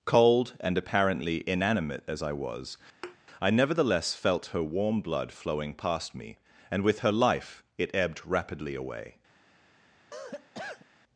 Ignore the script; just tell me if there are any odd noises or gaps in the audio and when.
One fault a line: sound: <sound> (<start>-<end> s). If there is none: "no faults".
sound: thud (3.0-3.2 s)
sound: cough (10.1-10.9 s)